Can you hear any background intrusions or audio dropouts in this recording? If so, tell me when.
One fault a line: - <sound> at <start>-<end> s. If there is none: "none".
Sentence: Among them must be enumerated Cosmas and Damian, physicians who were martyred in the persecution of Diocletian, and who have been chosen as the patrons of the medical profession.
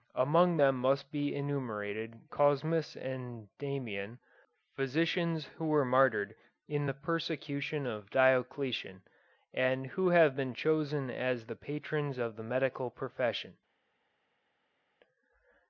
none